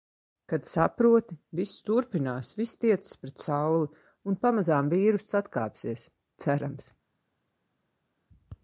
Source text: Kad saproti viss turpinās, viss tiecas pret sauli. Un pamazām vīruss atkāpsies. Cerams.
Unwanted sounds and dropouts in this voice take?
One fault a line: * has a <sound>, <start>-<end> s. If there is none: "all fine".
all fine